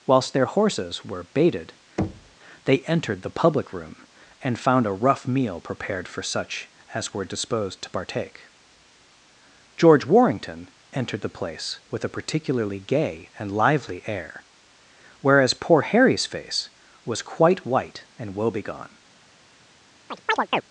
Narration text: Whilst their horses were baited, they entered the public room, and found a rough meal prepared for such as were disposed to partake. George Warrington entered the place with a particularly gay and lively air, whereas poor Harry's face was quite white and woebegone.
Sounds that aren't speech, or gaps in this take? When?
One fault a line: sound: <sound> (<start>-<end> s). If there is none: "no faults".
sound: thud (2.0-2.4 s)
sound: chirp (20.1-20.6 s)